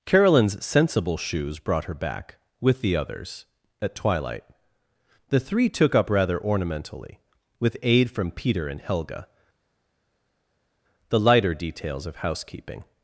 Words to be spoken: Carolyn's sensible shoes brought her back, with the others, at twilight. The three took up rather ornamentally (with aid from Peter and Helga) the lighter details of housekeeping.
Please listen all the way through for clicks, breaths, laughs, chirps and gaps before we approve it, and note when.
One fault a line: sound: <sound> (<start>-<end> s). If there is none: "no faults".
no faults